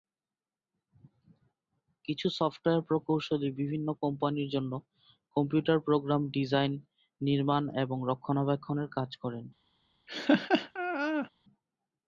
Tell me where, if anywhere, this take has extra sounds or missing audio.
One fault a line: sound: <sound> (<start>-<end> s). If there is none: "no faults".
sound: laugh (10.1-11.3 s)